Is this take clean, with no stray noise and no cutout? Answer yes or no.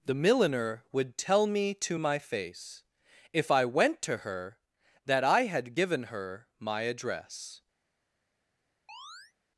no